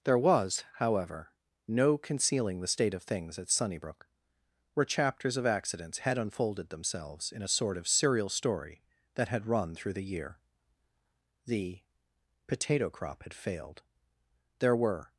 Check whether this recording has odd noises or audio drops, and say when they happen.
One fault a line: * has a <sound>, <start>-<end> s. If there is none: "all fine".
all fine